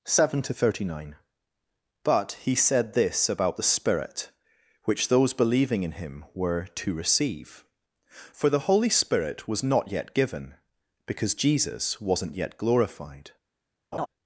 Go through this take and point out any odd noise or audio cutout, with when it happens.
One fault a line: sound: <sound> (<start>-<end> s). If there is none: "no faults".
sound: laugh (13.9-14.1 s)